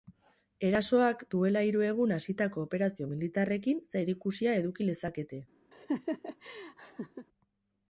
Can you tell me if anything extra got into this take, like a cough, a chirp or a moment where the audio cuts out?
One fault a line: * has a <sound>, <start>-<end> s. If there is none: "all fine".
* has a laugh, 5.7-7.3 s